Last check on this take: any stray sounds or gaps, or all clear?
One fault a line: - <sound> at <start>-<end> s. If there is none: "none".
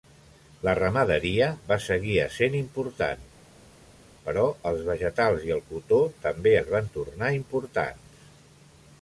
none